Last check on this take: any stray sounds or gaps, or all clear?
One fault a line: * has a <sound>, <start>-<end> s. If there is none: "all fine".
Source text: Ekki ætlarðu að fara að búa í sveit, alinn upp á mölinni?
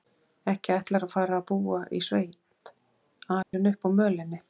* has a dropout, 3.4-3.5 s